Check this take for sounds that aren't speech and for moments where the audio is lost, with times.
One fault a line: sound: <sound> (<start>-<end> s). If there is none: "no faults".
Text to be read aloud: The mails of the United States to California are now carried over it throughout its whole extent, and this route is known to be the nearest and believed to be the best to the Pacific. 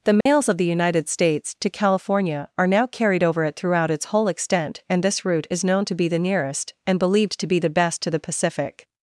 sound: dropout (0.2-0.3 s)